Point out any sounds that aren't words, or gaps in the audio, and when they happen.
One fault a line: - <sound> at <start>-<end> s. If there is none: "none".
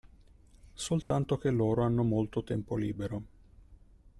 - dropout at 1.0-1.1 s